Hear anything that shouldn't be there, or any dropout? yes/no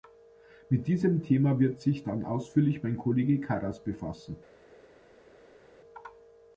no